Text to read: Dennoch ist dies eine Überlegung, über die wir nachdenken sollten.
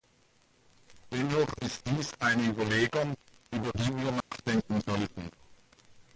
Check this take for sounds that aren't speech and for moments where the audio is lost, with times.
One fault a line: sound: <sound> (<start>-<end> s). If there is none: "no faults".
sound: dropout (4.2-4.3 s)